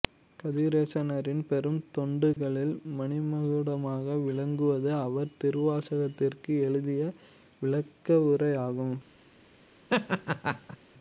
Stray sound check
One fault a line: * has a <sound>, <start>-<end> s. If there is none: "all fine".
* has a dropout, 2.3-2.4 s
* has a laugh, 9.9-10.8 s